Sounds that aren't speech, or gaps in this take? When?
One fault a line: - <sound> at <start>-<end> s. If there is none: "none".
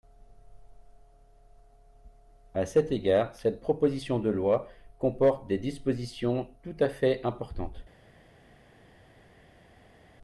none